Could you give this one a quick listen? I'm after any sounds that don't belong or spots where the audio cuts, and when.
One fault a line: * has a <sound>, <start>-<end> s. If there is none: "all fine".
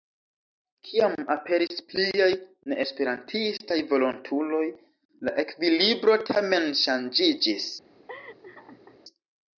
* has a laugh, 8.1-9.0 s